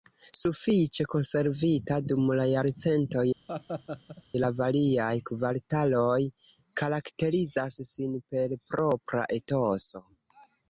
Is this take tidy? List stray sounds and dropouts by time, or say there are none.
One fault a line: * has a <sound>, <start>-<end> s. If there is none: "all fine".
* has a laugh, 3.5-4.2 s